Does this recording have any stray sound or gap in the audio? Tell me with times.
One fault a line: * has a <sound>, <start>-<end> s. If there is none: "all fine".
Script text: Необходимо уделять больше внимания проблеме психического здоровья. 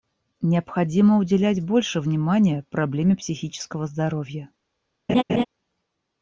* has a laugh, 5.1-5.4 s